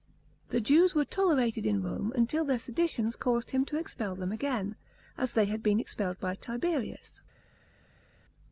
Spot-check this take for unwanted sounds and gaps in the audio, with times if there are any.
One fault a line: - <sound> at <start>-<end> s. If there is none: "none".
none